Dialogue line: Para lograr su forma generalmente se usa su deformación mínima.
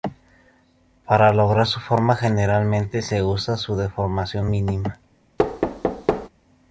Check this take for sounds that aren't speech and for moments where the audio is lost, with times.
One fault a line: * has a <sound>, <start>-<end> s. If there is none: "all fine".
* has a thud, 5.4-6.3 s